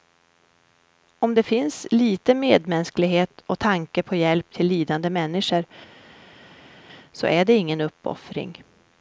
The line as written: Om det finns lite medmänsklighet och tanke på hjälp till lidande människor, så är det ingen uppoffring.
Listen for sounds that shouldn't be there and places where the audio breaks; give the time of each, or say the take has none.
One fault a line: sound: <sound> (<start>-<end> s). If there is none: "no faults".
no faults